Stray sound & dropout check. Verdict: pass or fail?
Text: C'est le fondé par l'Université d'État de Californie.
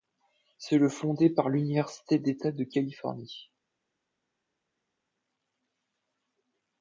pass